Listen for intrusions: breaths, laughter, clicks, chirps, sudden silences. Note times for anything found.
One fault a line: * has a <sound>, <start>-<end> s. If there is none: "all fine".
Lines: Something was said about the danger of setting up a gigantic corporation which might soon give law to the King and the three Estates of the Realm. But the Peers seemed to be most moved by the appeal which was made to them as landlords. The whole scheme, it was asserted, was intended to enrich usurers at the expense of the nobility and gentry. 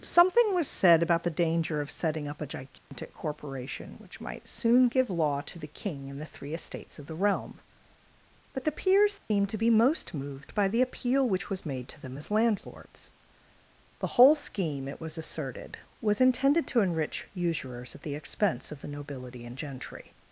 * has a dropout, 2.8-2.9 s
* has a dropout, 9.2-9.3 s